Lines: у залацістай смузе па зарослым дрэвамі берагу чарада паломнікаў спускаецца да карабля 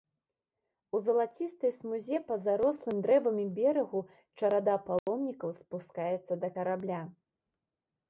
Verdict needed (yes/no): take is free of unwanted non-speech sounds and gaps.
no